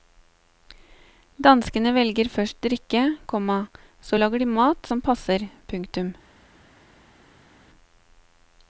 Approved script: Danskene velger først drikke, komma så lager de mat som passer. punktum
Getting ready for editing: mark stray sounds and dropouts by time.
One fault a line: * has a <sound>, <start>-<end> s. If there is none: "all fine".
all fine